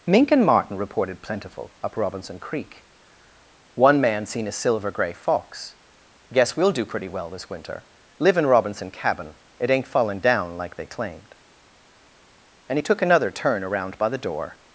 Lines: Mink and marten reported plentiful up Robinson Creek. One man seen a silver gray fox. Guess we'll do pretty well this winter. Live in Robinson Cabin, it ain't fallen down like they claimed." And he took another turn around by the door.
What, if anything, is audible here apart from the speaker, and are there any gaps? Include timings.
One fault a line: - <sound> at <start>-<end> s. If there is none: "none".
none